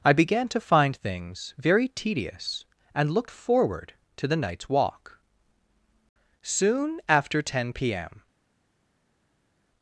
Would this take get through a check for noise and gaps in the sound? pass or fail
pass